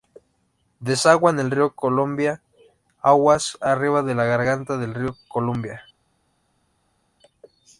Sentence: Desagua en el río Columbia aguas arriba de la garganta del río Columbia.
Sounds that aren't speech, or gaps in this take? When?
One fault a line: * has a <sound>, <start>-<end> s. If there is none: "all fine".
all fine